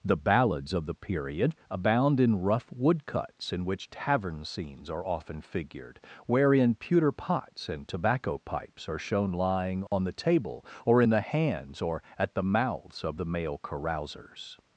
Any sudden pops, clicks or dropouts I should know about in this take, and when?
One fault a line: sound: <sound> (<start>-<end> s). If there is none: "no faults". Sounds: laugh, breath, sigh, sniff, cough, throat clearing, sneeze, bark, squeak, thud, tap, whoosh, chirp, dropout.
sound: dropout (9.9-9.9 s)